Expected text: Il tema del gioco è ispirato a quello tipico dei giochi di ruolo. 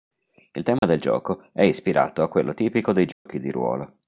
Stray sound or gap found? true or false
true